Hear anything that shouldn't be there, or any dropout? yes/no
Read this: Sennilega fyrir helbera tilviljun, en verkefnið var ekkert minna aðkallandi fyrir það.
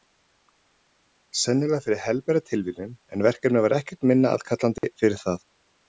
yes